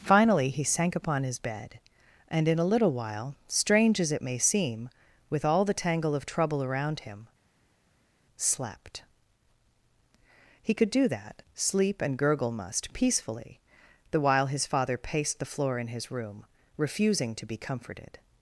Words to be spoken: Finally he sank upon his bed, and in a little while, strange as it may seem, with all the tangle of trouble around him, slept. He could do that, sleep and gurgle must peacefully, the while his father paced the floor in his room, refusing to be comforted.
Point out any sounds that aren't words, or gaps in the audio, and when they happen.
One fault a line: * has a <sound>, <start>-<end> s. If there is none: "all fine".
all fine